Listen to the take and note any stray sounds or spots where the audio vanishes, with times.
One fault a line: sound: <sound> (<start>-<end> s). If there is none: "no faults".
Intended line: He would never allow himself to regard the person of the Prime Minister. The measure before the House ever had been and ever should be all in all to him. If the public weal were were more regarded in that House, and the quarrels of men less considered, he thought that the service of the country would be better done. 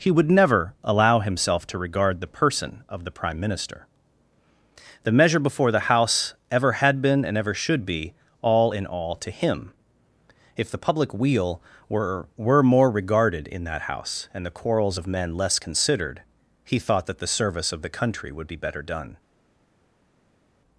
no faults